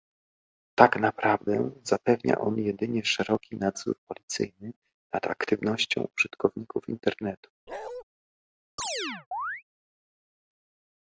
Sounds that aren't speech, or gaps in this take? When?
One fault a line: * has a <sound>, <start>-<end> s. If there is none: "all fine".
* has a bark, 7.7-8.0 s
* has a chirp, 8.8-9.6 s